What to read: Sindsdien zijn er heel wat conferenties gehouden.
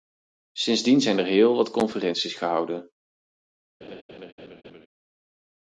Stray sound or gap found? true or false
true